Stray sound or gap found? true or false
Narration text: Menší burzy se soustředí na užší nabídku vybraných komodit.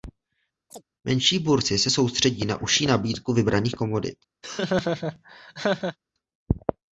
true